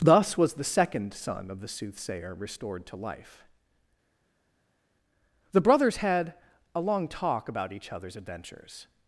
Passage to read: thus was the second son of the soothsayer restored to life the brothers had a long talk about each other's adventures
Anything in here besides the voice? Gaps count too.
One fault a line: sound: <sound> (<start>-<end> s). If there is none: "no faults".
no faults